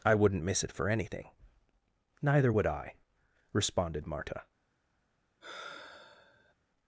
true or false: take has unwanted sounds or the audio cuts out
true